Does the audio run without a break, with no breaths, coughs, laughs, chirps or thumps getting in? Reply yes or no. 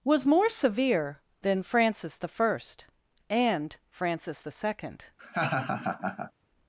no